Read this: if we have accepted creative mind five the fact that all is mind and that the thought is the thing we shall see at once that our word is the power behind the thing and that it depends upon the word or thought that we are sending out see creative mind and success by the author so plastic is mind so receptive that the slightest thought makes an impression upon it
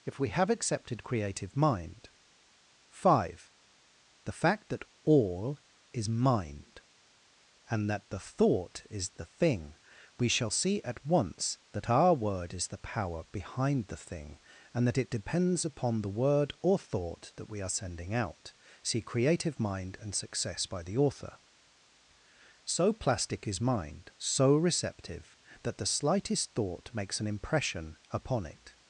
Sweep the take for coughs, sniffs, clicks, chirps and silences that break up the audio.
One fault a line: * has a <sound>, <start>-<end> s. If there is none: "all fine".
all fine